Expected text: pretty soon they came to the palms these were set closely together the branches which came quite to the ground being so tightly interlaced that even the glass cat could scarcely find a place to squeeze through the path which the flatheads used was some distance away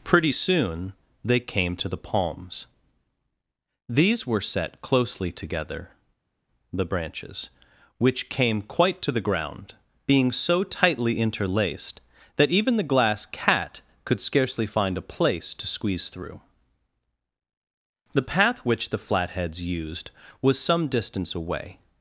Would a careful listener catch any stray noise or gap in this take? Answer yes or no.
no